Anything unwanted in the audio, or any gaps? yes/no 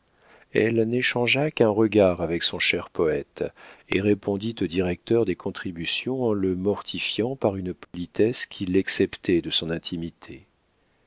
yes